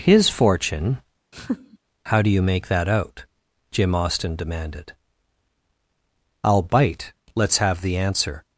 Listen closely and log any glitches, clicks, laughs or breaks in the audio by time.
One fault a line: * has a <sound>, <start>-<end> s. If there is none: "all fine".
* has a laugh, 1.3-1.8 s